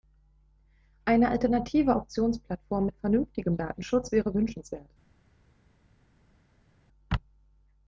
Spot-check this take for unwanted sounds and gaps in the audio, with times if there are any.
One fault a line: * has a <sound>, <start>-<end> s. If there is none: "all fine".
all fine